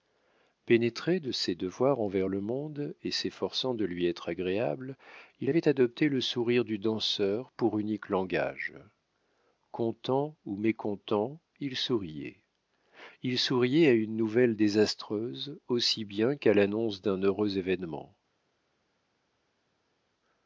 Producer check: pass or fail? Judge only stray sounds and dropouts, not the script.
pass